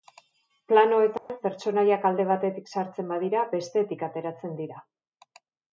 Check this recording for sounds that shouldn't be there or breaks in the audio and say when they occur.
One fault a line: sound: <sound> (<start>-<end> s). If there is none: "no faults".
sound: dropout (1.2-1.3 s)